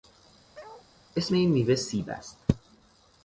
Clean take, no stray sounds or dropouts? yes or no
no